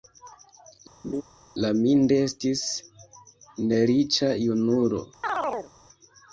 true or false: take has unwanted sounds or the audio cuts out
true